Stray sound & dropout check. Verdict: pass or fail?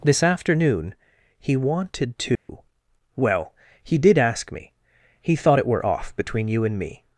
fail